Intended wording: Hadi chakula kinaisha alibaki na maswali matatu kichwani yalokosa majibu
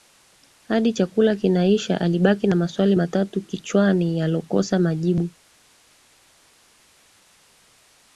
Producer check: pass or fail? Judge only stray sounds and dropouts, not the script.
pass